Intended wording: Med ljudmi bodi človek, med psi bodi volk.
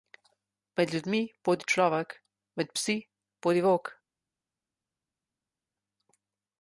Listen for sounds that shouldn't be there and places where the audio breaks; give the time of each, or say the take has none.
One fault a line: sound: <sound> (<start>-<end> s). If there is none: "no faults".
no faults